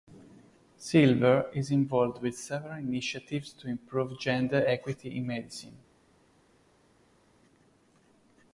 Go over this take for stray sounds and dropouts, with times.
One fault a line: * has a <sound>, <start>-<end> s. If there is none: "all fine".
all fine